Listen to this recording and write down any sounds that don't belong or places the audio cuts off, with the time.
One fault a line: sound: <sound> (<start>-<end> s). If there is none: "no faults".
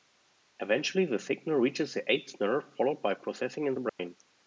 sound: dropout (3.9-4.0 s)